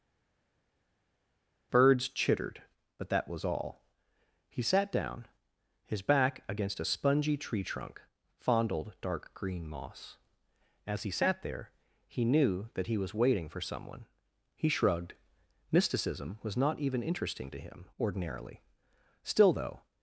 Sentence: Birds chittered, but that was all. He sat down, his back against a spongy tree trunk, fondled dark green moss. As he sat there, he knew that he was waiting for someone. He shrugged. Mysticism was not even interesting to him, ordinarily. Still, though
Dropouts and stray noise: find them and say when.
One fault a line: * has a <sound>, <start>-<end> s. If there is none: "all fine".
all fine